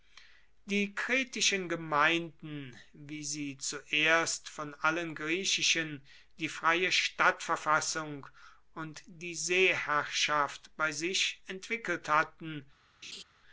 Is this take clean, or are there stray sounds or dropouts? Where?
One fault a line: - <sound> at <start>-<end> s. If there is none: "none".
- laugh at 13.0-13.2 s